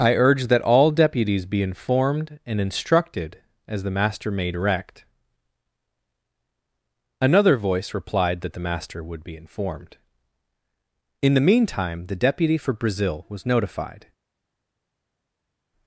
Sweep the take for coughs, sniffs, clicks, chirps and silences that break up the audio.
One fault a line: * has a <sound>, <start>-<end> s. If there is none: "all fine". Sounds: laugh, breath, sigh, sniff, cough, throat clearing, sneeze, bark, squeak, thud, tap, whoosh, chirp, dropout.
all fine